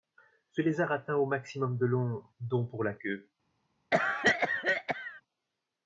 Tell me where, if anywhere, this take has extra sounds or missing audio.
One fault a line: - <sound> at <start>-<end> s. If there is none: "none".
- cough at 3.9-5.2 s